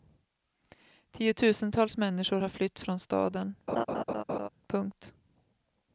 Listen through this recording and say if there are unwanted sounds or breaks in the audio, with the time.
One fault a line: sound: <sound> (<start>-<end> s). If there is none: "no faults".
sound: laugh (3.7-4.5 s)